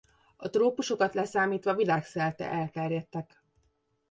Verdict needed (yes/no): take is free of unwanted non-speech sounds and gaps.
yes